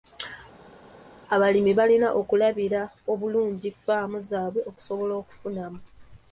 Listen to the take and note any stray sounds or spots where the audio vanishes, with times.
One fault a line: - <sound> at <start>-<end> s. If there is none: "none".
none